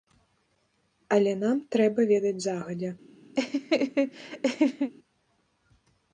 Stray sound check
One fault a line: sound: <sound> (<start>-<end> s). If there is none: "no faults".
sound: laugh (3.4-4.9 s)